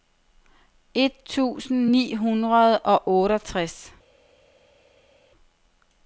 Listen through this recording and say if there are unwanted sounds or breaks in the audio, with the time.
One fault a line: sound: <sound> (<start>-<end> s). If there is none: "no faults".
no faults